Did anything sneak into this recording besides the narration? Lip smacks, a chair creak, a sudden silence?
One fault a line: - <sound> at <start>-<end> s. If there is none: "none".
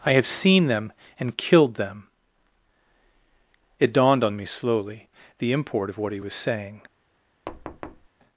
- thud at 7.5-8.1 s